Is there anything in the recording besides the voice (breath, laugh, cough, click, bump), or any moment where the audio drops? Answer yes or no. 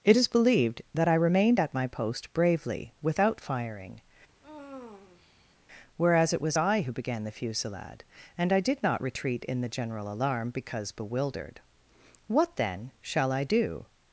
yes